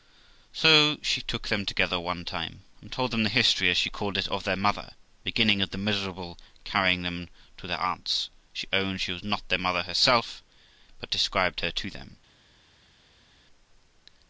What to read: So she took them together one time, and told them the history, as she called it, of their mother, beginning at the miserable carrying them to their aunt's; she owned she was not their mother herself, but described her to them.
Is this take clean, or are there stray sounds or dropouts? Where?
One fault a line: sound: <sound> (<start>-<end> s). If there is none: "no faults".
no faults